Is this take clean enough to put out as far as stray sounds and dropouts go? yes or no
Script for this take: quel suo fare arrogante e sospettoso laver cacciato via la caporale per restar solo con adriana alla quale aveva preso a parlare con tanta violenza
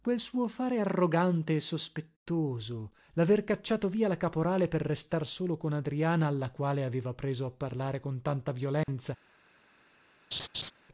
no